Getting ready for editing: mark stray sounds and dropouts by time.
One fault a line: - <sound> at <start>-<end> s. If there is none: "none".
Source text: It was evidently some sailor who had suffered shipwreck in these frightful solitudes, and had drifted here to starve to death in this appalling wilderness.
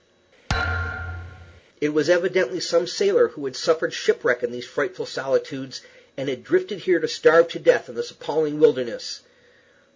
- thud at 0.5-1.6 s